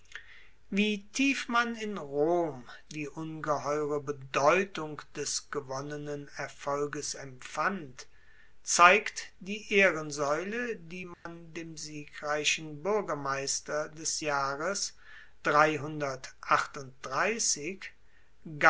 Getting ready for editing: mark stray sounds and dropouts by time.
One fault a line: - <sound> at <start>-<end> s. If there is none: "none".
- dropout at 11.1-11.3 s